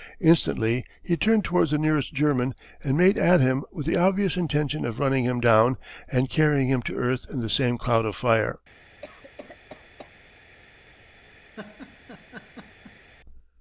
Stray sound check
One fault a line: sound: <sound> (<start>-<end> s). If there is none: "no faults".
sound: cough (9.0-10.1 s)
sound: laugh (11.5-13.1 s)